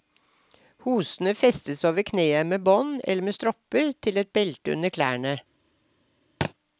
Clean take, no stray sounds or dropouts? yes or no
no